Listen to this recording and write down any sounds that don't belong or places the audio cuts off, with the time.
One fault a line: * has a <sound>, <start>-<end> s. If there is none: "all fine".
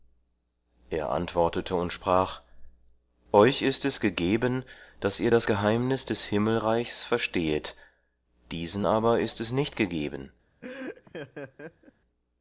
* has a laugh, 10.6-11.9 s